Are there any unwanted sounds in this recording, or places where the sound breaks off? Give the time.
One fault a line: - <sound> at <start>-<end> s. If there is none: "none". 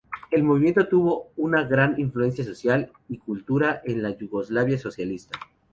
none